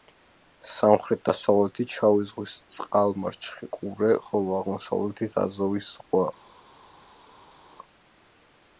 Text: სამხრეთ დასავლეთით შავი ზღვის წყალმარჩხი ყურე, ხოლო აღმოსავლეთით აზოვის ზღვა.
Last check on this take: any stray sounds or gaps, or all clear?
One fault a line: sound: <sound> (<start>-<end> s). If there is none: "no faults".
no faults